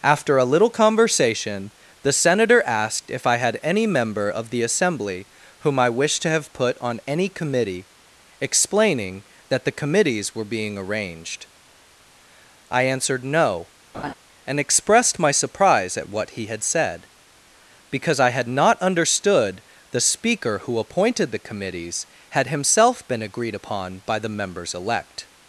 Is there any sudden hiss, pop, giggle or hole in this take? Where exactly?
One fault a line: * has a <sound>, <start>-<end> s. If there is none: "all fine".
* has a laugh, 13.9-14.1 s